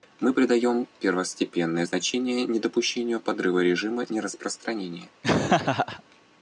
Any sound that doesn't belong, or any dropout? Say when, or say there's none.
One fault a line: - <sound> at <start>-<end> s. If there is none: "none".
- laugh at 5.2-6.0 s